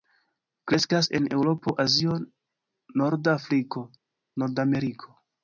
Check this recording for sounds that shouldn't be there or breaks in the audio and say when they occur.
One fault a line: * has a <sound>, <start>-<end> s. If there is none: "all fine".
all fine